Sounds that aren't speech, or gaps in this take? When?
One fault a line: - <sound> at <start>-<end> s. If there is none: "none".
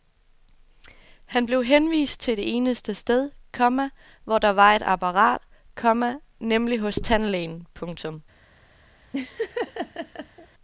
- laugh at 9.1-10.5 s